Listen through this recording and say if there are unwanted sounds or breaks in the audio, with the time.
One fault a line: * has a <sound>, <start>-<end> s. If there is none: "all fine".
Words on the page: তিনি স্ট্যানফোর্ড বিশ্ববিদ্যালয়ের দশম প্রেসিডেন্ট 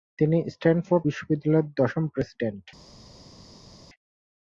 all fine